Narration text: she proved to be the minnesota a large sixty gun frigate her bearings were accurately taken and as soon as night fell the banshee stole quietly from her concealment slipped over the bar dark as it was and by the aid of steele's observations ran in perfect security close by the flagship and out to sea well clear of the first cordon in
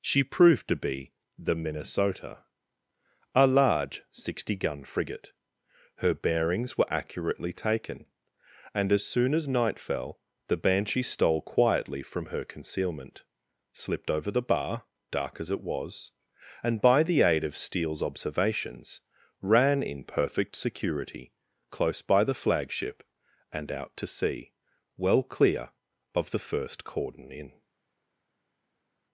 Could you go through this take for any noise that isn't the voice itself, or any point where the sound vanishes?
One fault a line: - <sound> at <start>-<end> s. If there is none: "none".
none